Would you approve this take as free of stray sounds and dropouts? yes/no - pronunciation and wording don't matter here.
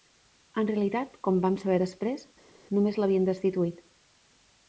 yes